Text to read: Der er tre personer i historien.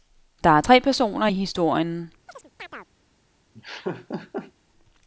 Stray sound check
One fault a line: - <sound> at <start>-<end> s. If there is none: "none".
- chirp at 2.3-2.9 s
- laugh at 3.5-4.5 s